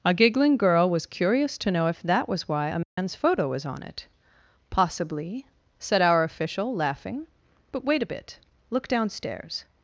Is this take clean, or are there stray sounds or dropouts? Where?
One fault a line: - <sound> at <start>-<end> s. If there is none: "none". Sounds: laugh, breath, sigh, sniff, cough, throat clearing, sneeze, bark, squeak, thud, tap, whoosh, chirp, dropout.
- dropout at 2.8-3.0 s